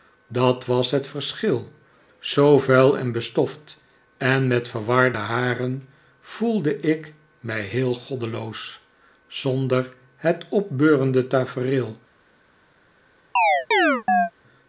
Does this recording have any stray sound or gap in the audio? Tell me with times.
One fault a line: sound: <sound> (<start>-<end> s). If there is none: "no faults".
sound: chirp (13.4-14.3 s)